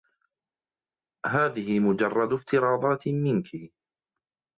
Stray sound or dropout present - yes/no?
no